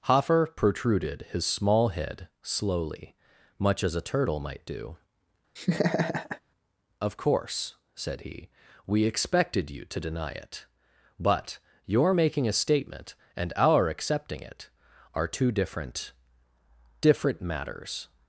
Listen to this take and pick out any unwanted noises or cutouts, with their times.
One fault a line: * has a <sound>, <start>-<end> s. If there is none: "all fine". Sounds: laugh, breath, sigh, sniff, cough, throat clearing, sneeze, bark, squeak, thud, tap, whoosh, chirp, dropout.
* has a laugh, 5.6-6.4 s